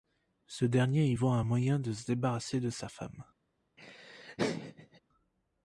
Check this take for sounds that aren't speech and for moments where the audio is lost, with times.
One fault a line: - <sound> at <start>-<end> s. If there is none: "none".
- laugh at 3.8-5.0 s